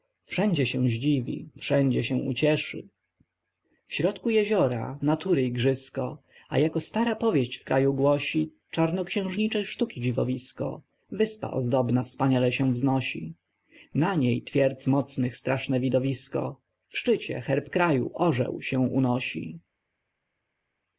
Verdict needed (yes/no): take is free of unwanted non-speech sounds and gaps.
yes